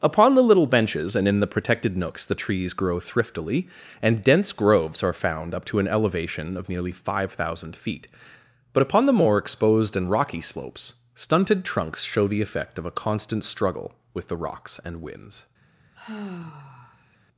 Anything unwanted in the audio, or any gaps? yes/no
yes